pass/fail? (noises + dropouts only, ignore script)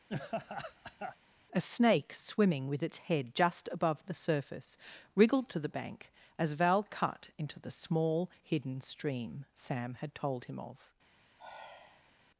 fail